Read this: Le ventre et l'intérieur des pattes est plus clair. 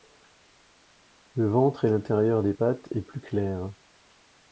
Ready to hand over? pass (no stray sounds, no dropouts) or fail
pass